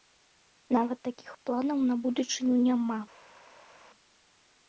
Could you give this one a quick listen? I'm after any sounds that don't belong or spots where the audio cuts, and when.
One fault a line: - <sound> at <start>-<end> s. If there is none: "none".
none